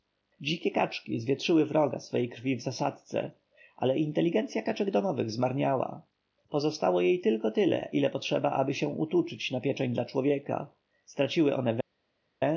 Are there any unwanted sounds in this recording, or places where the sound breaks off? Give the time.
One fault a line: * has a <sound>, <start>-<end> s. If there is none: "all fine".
all fine